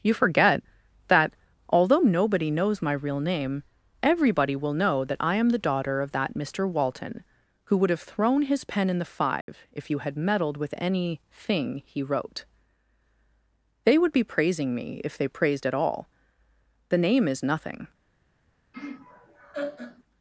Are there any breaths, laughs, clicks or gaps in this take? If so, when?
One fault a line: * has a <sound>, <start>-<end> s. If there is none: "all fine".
* has a dropout, 9.4-9.5 s
* has a laugh, 18.7-20.0 s